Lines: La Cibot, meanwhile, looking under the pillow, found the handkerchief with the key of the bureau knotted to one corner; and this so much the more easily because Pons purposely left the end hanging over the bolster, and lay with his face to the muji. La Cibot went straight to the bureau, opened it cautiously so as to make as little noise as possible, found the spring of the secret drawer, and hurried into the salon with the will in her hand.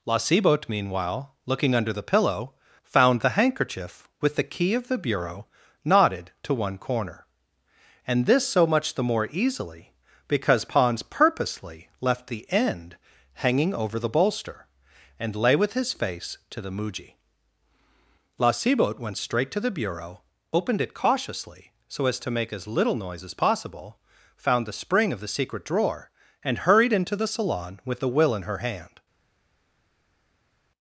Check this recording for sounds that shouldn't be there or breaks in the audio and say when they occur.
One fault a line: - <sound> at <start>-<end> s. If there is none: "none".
none